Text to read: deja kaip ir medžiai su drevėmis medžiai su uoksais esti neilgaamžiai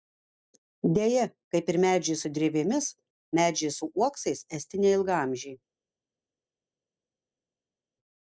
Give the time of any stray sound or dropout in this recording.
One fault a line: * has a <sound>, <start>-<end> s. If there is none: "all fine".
all fine